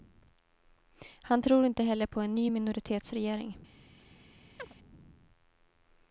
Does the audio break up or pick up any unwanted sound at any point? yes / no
yes